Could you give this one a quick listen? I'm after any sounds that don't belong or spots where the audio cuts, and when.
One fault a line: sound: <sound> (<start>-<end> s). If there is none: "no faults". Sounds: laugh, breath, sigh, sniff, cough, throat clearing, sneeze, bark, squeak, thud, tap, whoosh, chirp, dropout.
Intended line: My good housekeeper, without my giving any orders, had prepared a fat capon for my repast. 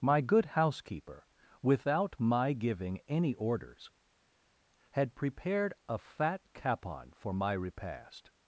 no faults